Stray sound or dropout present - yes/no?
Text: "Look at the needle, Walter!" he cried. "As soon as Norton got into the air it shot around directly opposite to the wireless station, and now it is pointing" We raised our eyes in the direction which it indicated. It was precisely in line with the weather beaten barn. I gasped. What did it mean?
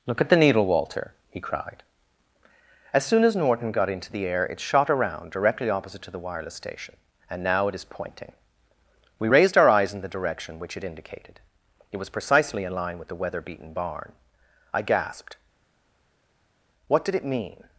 no